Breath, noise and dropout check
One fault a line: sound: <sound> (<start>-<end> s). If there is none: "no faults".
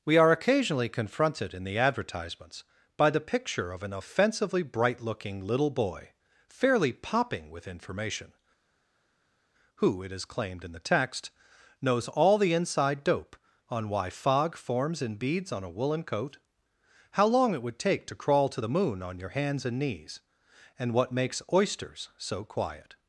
no faults